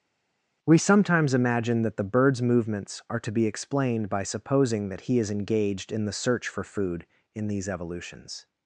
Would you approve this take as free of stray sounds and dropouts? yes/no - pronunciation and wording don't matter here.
yes